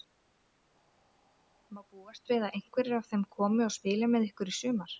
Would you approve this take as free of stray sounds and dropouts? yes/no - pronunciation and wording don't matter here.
yes